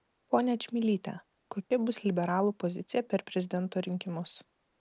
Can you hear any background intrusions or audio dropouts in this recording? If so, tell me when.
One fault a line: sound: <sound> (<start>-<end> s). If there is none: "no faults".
sound: dropout (1.6-1.7 s)